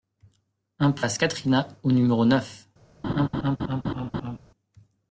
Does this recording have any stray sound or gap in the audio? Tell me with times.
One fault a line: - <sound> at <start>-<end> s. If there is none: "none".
- laugh at 3.0-4.4 s